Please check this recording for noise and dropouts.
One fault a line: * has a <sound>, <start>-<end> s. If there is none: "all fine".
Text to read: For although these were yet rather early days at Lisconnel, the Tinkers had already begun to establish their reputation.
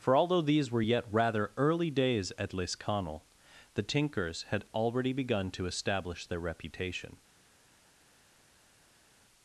all fine